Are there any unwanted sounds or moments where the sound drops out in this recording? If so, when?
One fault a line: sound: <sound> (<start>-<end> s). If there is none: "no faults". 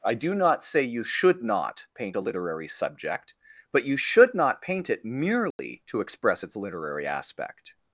sound: dropout (5.5-5.6 s)